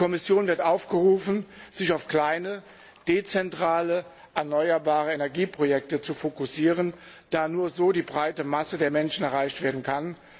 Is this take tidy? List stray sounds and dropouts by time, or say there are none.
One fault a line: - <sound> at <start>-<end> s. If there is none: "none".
none